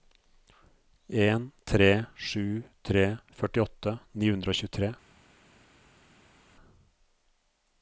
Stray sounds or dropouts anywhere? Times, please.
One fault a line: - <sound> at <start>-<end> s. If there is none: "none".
none